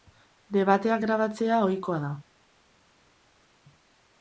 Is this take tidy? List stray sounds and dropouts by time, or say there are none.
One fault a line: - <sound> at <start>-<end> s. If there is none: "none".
none